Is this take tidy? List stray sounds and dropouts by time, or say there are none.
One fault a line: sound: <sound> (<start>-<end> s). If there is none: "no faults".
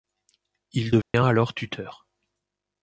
sound: dropout (1.0-1.1 s)